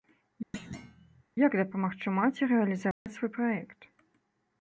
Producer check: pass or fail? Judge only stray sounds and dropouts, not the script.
fail